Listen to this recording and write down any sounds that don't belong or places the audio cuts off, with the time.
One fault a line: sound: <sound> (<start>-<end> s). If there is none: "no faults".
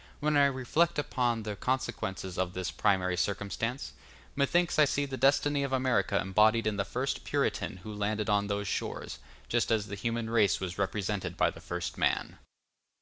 no faults